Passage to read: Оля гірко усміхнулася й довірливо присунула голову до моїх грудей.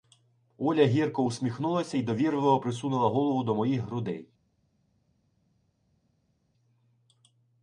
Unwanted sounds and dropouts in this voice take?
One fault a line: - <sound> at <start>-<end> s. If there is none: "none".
none